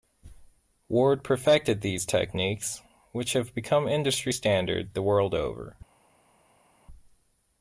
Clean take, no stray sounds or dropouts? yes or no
yes